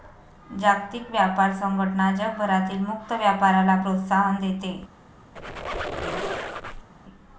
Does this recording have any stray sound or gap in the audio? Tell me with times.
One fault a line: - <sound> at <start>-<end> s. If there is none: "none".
- squeak at 5.4-6.9 s